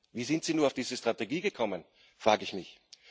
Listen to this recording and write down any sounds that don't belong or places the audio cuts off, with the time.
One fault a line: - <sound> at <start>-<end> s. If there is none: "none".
none